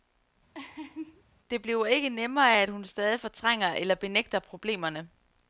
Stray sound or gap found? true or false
true